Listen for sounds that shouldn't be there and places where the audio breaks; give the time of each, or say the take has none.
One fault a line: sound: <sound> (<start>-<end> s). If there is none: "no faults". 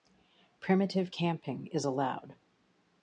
no faults